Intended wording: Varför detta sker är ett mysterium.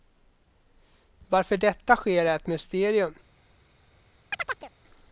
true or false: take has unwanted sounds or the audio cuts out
true